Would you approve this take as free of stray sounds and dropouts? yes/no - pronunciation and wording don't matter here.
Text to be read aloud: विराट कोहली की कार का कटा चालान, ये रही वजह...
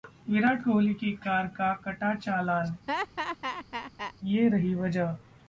no